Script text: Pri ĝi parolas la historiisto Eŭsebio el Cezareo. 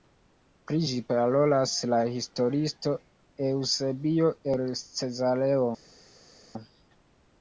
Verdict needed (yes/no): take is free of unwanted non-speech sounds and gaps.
yes